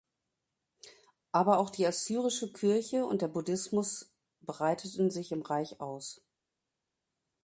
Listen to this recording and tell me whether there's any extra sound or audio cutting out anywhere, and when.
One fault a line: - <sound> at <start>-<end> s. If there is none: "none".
none